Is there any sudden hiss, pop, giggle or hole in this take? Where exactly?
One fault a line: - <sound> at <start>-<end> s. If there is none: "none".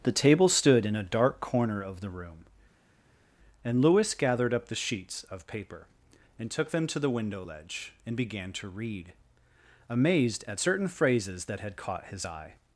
none